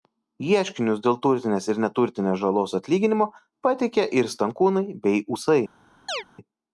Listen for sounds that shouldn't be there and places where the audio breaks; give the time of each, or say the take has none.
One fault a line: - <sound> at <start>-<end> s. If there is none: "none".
- chirp at 6.1-6.2 s